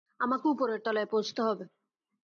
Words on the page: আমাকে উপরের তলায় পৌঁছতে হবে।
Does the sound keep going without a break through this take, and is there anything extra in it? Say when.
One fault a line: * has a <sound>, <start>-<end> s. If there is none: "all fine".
all fine